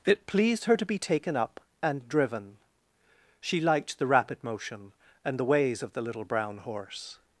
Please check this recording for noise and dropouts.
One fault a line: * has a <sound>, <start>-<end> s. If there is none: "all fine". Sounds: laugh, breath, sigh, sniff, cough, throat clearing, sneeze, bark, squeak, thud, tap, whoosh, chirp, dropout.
all fine